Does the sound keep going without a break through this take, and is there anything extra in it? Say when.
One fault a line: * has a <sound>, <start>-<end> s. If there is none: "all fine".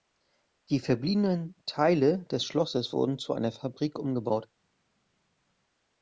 all fine